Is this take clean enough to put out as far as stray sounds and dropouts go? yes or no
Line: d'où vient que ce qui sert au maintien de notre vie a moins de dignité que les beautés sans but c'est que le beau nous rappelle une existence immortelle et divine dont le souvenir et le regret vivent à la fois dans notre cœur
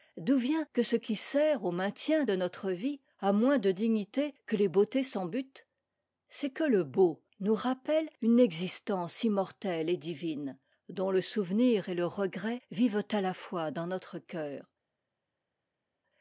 yes